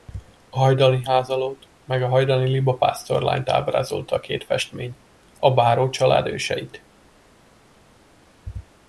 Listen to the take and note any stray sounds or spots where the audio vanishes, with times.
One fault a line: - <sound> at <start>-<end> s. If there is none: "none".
none